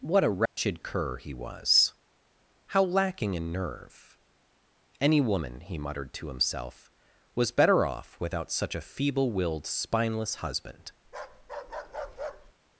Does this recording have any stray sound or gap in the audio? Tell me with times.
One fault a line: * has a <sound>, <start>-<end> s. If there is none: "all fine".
* has a dropout, 0.5-0.6 s
* has a bark, 11.0-12.5 s